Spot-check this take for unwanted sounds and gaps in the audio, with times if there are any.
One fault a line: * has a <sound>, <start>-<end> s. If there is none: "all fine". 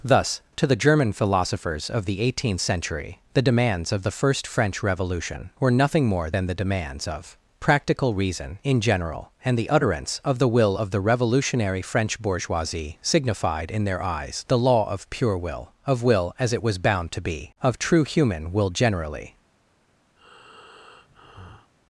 * has a breath, 20.2-21.7 s